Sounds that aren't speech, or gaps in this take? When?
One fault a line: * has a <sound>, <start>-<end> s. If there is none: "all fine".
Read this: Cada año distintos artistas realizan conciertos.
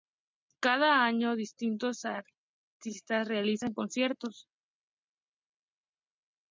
all fine